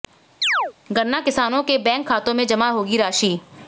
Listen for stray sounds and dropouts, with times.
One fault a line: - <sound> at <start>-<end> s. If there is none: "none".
- chirp at 0.4-0.7 s